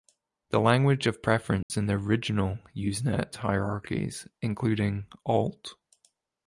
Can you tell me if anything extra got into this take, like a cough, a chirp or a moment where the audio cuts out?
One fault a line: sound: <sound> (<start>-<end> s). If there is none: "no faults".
sound: dropout (1.6-1.7 s)